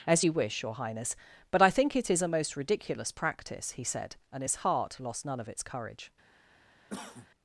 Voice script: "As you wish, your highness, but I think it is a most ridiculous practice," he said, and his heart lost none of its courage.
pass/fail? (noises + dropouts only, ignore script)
fail